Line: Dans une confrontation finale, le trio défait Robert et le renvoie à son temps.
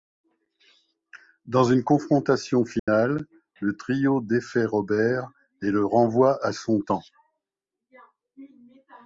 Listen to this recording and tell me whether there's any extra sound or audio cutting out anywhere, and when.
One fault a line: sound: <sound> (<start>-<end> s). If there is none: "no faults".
sound: dropout (2.8-2.9 s)